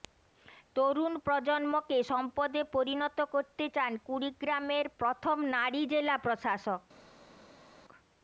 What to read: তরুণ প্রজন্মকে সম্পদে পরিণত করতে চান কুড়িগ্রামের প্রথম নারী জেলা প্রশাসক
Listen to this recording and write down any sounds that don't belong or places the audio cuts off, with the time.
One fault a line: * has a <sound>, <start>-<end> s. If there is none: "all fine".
all fine